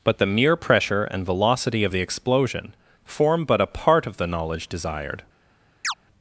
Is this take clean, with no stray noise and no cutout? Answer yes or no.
no